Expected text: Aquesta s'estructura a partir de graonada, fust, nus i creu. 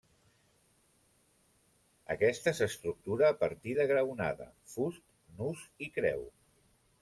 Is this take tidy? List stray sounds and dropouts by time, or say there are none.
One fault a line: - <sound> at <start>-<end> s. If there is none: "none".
none